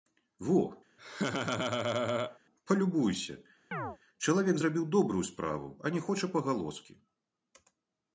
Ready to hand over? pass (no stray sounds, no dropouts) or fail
fail